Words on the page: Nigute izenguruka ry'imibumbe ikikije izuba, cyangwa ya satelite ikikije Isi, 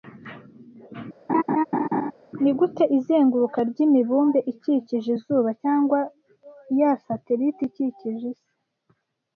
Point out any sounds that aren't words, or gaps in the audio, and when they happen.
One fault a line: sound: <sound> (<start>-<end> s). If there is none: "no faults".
sound: laugh (1.3-2.1 s)